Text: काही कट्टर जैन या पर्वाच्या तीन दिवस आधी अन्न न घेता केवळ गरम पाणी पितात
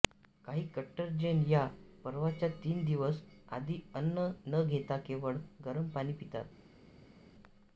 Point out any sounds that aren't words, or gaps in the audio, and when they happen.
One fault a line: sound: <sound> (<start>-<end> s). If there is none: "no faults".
no faults